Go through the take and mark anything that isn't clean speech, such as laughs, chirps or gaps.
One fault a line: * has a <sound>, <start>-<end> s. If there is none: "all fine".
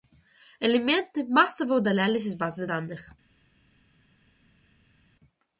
all fine